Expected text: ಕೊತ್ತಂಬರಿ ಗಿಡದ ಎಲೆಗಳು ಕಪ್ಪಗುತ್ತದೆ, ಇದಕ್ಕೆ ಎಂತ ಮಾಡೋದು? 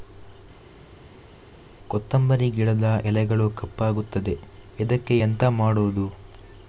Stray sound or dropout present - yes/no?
no